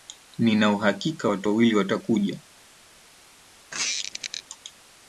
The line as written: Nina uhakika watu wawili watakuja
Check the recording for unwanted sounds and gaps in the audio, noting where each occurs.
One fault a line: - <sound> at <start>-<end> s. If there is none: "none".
- squeak at 3.7-4.4 s